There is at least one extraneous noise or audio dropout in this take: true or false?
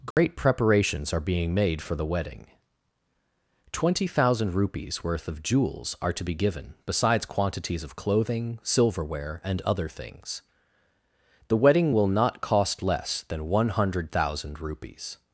true